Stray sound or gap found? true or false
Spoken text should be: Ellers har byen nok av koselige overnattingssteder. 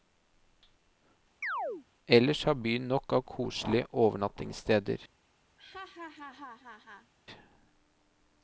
true